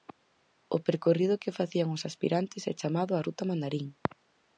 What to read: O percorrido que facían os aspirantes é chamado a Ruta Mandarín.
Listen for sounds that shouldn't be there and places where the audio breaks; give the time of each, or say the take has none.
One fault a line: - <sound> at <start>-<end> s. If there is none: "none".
none